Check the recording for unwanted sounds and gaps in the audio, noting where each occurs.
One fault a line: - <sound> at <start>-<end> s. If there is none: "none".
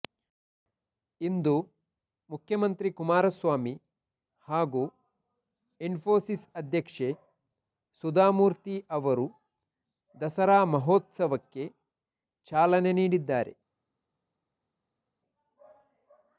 none